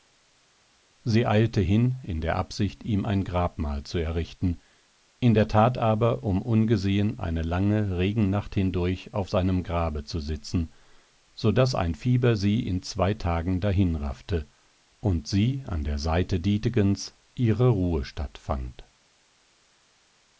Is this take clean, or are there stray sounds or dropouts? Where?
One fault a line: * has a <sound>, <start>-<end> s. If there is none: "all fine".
all fine